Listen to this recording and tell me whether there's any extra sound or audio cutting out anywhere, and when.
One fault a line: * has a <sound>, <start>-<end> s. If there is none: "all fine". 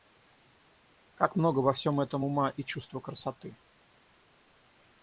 all fine